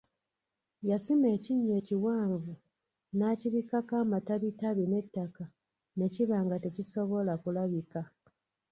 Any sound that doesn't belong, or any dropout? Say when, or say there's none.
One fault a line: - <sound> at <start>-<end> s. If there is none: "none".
none